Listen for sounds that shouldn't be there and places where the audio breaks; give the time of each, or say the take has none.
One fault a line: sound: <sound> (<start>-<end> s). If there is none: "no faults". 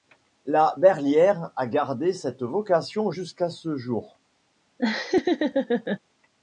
sound: laugh (4.8-6.0 s)